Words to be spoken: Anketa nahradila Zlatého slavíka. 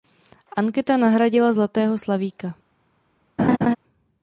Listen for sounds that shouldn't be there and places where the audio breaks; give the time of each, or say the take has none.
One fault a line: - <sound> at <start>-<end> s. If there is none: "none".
- laugh at 3.4-3.8 s